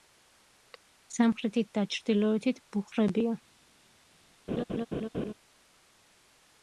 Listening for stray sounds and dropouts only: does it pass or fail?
fail